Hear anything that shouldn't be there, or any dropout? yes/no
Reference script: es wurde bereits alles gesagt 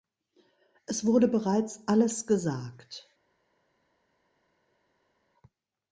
no